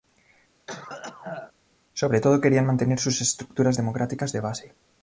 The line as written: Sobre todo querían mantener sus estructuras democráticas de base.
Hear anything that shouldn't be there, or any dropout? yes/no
yes